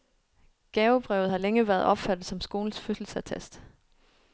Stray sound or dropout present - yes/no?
no